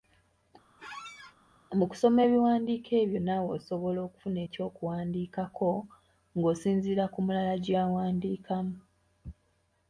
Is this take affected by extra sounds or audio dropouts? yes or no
yes